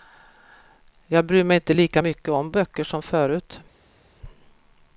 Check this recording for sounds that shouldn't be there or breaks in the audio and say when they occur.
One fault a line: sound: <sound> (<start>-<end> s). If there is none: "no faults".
no faults